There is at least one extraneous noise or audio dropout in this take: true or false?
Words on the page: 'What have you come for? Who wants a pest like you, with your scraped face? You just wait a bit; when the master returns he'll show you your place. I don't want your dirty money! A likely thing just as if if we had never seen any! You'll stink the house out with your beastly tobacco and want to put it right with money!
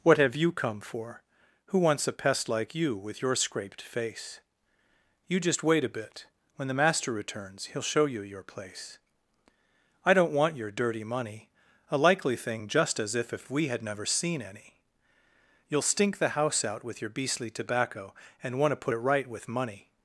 false